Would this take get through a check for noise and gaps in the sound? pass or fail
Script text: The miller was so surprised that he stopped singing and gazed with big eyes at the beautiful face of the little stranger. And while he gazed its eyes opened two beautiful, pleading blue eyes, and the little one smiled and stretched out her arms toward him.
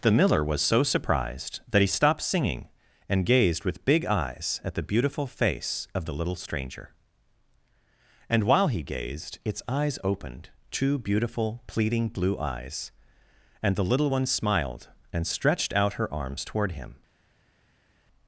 pass